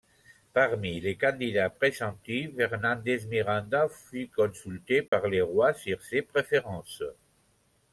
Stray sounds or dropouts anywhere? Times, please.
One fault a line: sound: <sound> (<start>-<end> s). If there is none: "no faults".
sound: dropout (5.1-5.1 s)